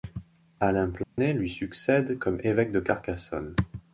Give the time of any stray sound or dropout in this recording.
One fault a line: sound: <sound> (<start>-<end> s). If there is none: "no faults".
sound: dropout (1.0-1.2 s)